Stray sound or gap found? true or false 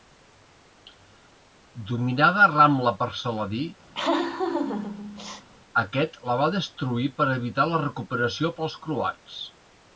true